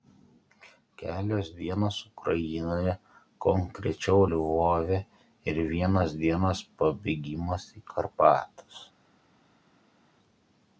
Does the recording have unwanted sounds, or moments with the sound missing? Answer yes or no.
no